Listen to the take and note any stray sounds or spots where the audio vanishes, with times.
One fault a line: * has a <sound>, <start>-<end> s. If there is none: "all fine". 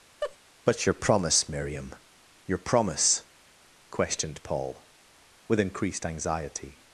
* has a laugh, 0.2-0.4 s